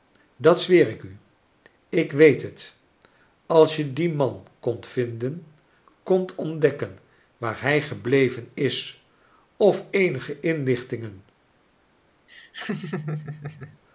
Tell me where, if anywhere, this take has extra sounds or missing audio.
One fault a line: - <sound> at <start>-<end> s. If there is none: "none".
- laugh at 12.3-13.8 s